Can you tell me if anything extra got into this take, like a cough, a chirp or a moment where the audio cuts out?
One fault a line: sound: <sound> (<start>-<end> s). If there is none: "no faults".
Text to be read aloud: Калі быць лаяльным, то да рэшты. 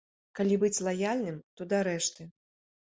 no faults